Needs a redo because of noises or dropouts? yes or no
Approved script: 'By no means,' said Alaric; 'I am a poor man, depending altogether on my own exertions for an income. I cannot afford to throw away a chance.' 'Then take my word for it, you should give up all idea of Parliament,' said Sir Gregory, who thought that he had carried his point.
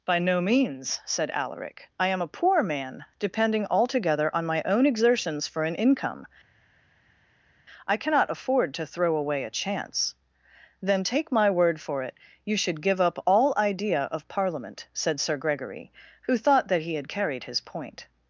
no